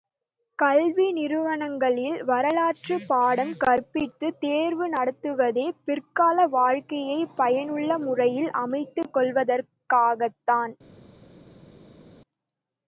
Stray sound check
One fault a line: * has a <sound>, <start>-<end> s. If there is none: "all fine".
all fine